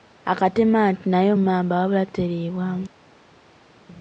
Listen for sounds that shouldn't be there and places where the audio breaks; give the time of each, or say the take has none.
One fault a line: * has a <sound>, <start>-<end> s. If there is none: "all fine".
all fine